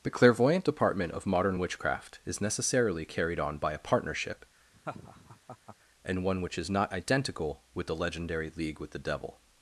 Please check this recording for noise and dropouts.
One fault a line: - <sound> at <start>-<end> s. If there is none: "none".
- laugh at 4.7-5.8 s